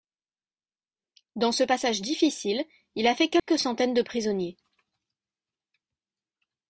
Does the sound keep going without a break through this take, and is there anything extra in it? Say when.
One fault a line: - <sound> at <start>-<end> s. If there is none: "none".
- dropout at 3.4-3.5 s